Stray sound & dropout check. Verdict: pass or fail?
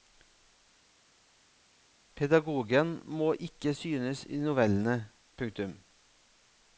pass